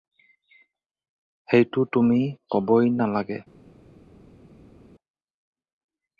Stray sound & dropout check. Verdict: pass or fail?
pass